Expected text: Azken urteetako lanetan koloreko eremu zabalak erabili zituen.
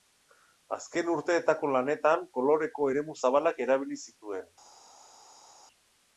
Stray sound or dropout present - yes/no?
no